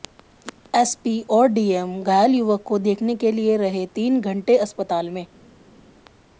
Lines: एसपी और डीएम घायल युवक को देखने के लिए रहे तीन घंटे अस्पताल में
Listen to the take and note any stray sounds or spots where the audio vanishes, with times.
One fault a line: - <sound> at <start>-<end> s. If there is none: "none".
none